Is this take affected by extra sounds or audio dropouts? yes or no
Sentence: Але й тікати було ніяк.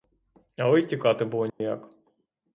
yes